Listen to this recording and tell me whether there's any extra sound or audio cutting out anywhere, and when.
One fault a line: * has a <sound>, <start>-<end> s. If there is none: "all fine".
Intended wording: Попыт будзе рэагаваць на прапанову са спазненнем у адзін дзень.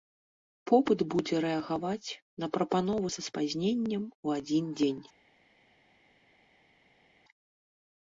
all fine